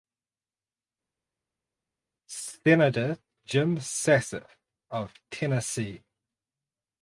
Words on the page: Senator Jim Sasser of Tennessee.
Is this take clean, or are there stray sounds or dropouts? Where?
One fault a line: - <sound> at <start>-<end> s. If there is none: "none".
none